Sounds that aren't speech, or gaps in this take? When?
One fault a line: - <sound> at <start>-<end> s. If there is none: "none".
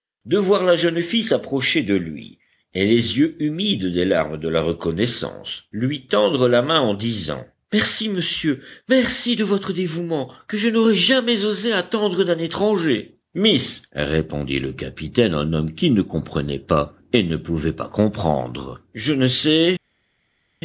none